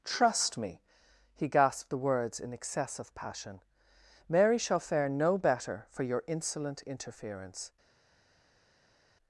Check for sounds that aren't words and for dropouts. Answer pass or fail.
pass